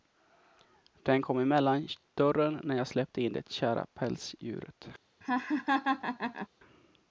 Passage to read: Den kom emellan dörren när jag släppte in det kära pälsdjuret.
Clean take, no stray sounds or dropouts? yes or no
no